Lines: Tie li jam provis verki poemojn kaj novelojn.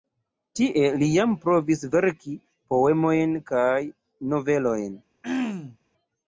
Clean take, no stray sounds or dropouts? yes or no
no